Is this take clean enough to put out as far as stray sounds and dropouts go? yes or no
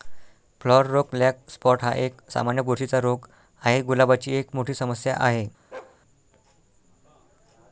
no